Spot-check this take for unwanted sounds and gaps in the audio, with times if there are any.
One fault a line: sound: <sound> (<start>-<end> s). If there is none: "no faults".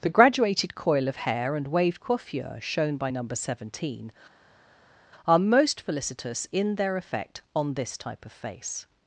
no faults